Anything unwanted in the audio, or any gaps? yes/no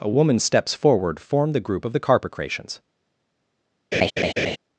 yes